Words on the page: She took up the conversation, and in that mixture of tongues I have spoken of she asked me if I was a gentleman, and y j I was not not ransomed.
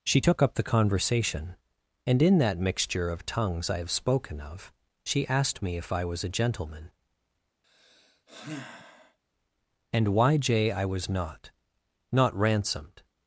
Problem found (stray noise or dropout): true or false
true